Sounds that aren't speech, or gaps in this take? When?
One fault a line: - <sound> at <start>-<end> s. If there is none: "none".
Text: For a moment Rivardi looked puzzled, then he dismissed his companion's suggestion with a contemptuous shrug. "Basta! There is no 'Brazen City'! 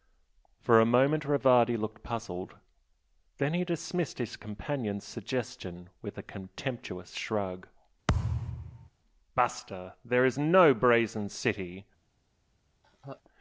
- thud at 8.1-8.9 s
- laugh at 12.8-13.2 s